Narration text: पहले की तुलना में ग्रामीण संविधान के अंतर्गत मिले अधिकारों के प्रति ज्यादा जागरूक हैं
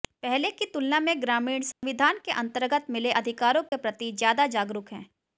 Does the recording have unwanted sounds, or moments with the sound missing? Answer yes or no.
yes